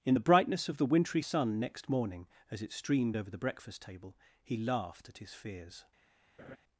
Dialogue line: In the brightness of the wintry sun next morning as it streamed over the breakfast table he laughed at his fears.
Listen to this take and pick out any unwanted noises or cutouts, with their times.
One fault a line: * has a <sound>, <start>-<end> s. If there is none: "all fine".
* has a laugh, 6.4-6.6 s